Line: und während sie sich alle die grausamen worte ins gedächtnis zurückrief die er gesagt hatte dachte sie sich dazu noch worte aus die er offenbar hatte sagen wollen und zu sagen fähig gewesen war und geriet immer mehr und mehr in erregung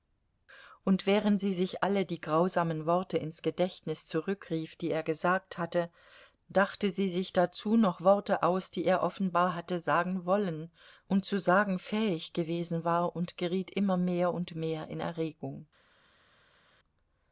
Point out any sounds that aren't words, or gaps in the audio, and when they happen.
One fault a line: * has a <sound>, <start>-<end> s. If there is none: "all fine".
all fine